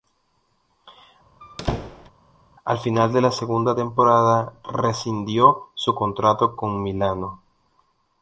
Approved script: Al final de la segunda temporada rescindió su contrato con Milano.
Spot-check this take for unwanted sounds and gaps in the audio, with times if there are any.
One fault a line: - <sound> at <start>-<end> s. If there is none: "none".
- squeak at 1.4-2.1 s